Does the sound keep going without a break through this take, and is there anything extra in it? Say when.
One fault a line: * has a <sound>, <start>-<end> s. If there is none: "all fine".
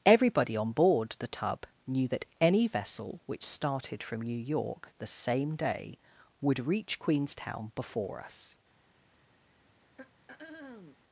* has a throat clearing, 10.0-11.0 s